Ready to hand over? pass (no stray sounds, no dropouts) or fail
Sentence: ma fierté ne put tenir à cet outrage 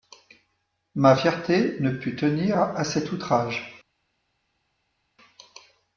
pass